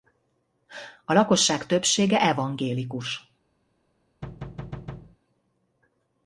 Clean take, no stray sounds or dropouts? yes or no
no